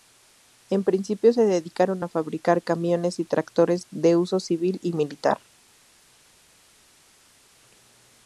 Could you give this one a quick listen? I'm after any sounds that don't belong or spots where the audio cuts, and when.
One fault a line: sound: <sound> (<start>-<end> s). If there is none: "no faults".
no faults